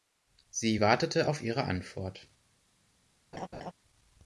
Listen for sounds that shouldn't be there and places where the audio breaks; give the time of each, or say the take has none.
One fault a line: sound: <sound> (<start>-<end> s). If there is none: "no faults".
sound: laugh (3.3-3.7 s)